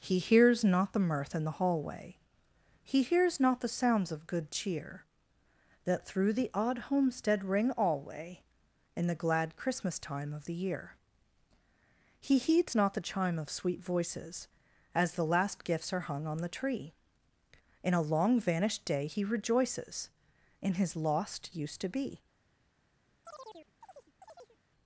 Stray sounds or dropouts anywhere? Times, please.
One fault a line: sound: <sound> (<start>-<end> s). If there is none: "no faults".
sound: chirp (23.3-24.6 s)